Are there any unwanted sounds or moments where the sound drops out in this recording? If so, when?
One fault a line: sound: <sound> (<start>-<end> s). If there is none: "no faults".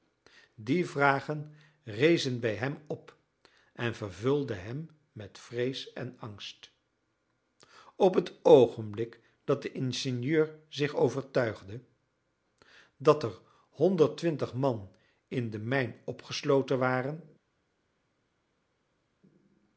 no faults